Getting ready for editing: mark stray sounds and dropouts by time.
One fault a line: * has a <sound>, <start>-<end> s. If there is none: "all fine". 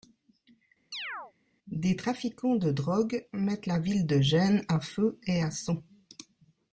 * has a chirp, 0.9-1.3 s